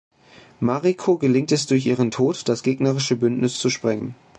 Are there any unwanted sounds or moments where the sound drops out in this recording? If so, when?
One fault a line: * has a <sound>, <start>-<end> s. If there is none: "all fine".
all fine